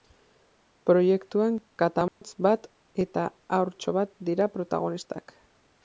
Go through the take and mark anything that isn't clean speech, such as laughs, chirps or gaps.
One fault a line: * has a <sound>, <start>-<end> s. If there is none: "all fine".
* has a dropout, 2.1-2.2 s